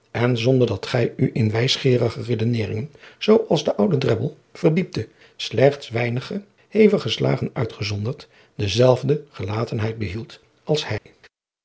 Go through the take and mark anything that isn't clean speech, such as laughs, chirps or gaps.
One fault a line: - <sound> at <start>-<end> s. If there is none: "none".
- dropout at 11.0-11.1 s